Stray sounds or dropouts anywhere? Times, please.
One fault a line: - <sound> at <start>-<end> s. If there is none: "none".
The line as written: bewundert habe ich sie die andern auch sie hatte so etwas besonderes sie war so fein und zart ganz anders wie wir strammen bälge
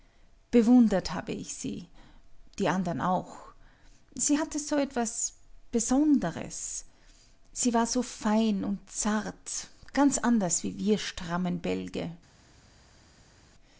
none